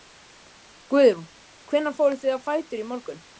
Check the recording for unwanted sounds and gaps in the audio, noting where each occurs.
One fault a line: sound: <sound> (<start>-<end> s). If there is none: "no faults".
no faults